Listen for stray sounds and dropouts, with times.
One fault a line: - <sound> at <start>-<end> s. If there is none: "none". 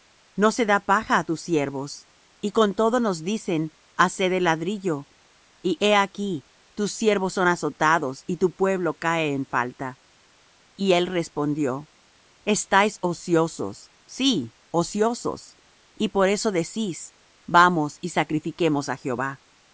none